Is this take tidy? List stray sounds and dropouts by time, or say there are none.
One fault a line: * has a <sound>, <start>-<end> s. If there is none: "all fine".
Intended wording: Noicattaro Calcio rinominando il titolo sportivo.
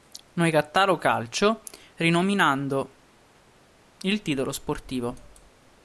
all fine